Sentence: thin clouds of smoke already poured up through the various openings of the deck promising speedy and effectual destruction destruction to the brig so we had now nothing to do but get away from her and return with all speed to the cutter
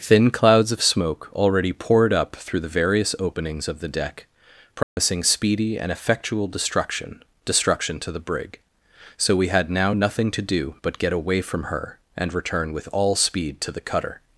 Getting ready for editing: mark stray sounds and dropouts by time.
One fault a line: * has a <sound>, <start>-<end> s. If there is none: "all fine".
* has a dropout, 4.8-5.0 s